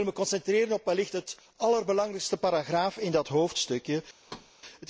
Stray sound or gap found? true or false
true